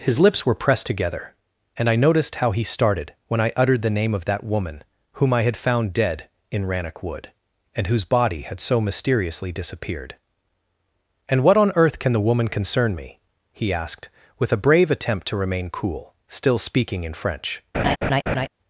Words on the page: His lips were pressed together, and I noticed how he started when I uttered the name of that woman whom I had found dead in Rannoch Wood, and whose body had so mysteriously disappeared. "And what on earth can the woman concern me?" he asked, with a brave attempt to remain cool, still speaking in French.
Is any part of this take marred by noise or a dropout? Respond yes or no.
yes